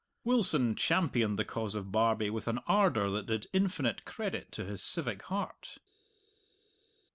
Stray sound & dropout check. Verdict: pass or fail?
pass